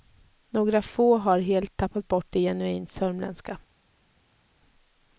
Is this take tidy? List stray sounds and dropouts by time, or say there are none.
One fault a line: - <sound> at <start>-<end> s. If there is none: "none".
none